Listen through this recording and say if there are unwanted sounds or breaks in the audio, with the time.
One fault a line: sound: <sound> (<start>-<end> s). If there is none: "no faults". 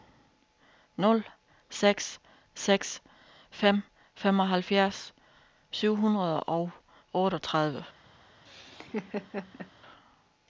sound: laugh (8.5-9.7 s)